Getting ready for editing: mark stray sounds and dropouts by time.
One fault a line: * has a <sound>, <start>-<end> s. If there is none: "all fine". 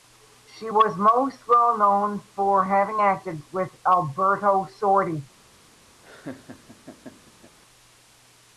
* has a laugh, 6.0-7.6 s